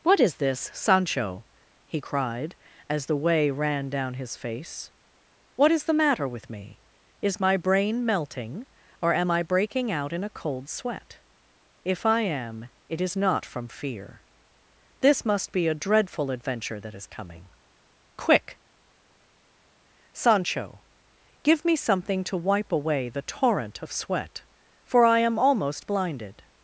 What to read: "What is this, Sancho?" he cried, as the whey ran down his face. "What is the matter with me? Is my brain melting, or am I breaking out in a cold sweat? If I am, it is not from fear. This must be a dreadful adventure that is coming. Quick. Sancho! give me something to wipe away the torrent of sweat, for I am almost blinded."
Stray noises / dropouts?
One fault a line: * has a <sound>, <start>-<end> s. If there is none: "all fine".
all fine